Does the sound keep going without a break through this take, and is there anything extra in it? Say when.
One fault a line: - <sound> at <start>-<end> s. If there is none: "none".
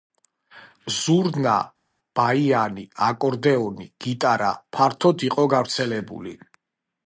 none